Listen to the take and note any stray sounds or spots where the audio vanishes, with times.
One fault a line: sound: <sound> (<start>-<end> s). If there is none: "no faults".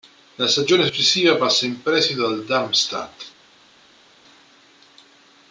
no faults